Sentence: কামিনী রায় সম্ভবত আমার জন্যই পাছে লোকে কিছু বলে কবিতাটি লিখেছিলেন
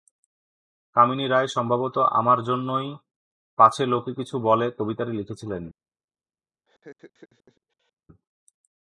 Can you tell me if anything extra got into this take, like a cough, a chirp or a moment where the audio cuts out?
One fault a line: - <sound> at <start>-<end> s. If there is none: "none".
- laugh at 6.7-7.9 s